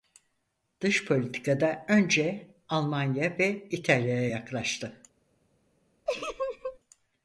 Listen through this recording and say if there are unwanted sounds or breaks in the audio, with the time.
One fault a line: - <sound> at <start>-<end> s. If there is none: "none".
- laugh at 6.1-6.8 s